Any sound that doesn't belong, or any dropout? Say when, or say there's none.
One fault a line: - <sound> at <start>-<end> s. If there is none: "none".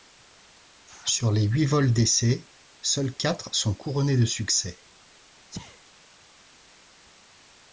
- sneeze at 5.5-5.9 s